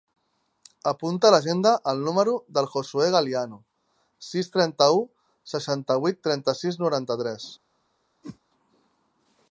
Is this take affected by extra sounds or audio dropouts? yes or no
yes